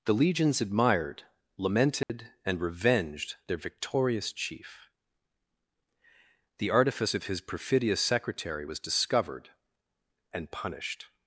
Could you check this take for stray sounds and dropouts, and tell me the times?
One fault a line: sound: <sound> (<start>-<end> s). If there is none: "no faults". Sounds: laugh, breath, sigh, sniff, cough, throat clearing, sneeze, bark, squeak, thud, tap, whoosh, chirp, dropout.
sound: dropout (2.0-2.1 s)